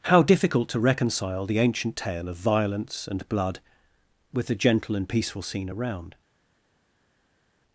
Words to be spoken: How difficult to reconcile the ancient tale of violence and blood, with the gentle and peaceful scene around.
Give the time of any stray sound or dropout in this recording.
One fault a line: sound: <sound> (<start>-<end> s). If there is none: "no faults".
no faults